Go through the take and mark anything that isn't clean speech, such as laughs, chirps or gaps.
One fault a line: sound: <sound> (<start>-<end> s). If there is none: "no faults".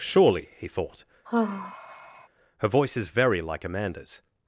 sound: sigh (1.3-2.3 s)